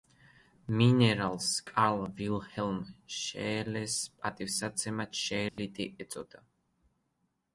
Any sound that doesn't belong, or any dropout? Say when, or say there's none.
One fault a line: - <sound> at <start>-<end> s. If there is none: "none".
- dropout at 5.5-5.6 s